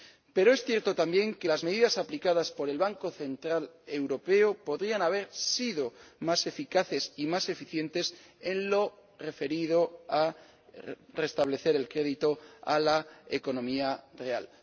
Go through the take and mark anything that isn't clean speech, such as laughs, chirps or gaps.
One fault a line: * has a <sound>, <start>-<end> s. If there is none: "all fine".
all fine